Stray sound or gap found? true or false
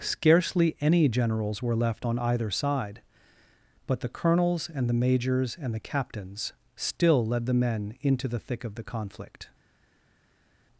false